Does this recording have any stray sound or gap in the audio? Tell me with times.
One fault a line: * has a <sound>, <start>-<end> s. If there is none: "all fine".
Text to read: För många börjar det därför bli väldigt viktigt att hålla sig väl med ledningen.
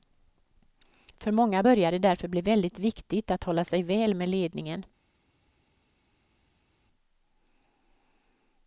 all fine